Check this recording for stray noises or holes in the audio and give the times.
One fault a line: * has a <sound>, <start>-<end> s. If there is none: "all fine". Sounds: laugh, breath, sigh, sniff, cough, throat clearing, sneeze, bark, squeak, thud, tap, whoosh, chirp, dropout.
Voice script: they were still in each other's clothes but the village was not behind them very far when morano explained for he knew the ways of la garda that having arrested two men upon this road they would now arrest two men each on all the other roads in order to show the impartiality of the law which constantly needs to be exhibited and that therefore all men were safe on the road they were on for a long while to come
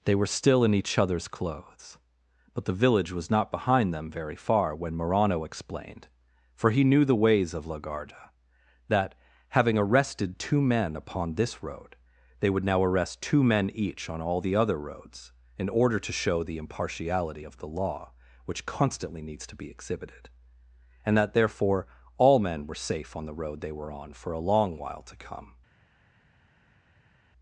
all fine